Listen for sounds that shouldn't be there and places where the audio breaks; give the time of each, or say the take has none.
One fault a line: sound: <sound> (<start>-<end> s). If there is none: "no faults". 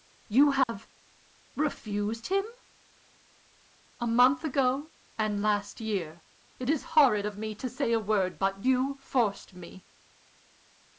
sound: dropout (0.6-0.7 s)